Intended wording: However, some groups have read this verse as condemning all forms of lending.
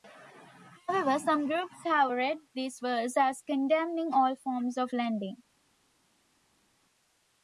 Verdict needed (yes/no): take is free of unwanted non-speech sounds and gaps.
yes